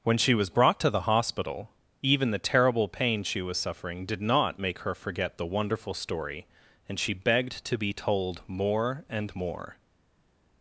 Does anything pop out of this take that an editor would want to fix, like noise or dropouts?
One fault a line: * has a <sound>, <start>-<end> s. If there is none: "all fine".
all fine